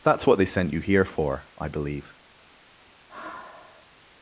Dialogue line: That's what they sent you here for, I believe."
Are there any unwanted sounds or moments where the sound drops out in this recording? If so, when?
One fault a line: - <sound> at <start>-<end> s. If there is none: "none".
- sigh at 3.1-3.9 s